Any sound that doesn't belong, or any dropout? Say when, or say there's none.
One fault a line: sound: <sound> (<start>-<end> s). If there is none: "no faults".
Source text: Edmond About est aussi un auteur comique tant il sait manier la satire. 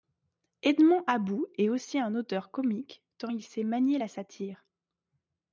no faults